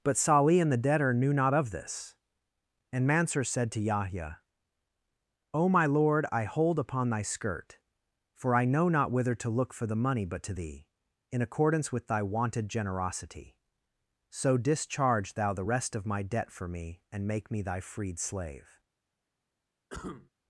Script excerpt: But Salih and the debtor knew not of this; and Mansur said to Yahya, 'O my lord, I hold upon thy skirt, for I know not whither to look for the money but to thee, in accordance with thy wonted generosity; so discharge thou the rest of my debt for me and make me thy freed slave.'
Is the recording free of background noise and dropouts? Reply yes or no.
no